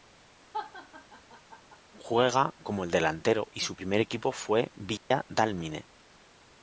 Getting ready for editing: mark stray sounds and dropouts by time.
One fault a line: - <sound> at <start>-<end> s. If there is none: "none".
- laugh at 0.5-1.8 s
- dropout at 5.0-5.1 s